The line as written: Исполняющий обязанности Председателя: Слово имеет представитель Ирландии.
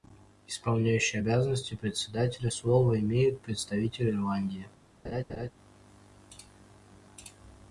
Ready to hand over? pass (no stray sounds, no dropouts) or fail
fail